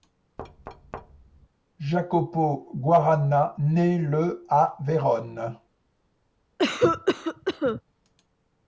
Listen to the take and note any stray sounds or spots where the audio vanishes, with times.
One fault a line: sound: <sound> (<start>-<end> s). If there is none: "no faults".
sound: thud (0.4-1.5 s)
sound: cough (6.6-7.8 s)